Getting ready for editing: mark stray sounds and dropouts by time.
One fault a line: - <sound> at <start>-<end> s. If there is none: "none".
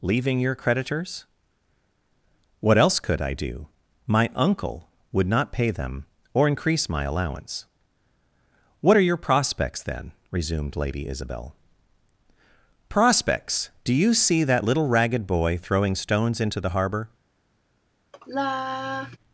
- sigh at 18.1-19.2 s